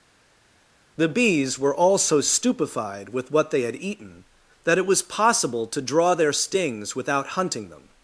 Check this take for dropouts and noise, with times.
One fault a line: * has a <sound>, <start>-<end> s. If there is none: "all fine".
all fine